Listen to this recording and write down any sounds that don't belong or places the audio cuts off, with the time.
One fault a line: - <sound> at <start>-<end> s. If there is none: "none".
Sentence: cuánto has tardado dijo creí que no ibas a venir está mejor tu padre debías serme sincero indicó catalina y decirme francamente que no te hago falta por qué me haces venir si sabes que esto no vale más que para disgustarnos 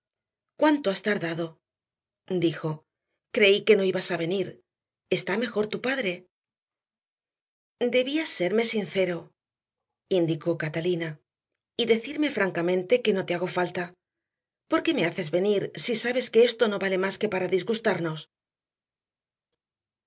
none